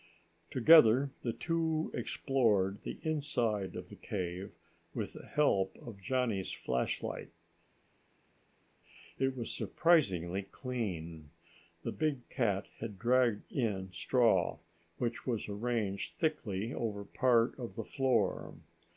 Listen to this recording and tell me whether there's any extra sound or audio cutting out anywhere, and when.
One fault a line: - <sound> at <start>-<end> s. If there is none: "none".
none